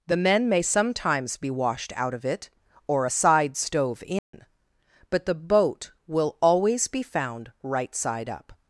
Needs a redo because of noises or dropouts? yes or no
yes